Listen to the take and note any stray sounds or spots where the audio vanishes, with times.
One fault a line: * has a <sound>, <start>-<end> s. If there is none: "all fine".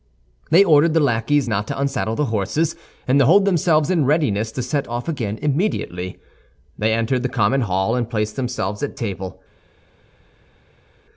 all fine